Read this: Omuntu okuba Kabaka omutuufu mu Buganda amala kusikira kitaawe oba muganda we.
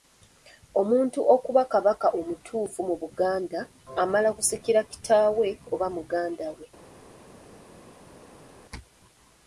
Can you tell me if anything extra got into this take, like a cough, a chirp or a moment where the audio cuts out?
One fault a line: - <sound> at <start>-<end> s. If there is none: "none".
none